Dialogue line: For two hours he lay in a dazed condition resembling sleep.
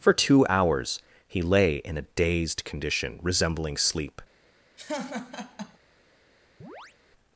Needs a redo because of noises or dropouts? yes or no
yes